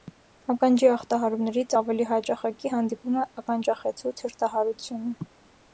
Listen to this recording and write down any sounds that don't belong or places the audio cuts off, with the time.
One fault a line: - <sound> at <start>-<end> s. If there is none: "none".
none